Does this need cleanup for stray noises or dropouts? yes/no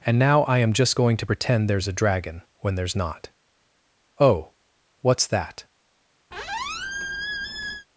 yes